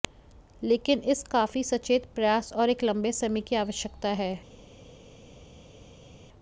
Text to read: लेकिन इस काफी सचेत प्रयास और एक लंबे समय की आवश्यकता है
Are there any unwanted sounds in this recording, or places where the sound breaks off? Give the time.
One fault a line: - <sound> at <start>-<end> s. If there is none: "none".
none